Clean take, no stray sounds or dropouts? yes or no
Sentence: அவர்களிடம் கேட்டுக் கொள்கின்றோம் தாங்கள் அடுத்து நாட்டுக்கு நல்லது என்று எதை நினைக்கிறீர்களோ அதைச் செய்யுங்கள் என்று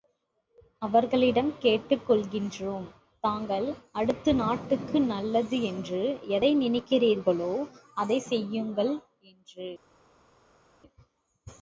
yes